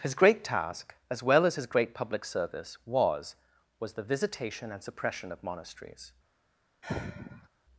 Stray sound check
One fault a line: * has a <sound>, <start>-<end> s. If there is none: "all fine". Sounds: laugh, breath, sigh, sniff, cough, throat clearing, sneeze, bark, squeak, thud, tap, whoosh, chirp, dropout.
* has a sigh, 6.8-7.5 s